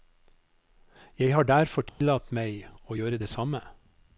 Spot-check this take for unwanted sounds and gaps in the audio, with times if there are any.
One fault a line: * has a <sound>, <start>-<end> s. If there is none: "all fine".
* has a dropout, 1.9-2.0 s